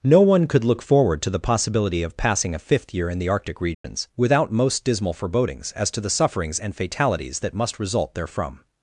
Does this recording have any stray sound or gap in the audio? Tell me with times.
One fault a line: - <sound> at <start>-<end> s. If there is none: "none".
- dropout at 3.7-3.8 s